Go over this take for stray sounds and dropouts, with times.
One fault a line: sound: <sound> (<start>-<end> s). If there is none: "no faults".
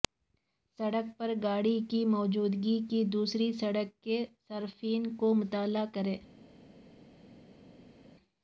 no faults